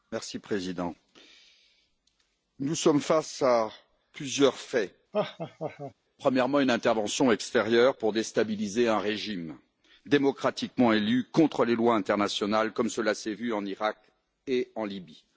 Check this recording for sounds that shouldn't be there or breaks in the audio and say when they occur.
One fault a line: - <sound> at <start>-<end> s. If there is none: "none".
- laugh at 5.1-5.9 s